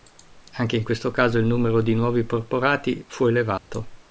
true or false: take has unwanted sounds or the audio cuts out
true